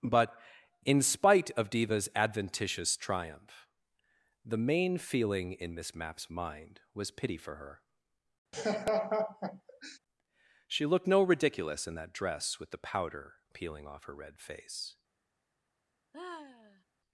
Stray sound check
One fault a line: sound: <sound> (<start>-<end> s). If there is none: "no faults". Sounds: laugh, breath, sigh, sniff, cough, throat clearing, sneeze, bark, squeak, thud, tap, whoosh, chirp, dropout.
sound: laugh (8.5-10.0 s)
sound: sigh (16.1-16.8 s)